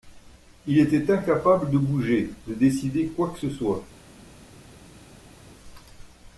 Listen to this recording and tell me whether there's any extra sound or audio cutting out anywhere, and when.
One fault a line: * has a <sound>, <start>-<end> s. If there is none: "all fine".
all fine